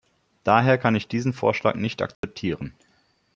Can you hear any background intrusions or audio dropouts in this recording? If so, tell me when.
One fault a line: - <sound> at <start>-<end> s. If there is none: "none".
- dropout at 2.1-2.2 s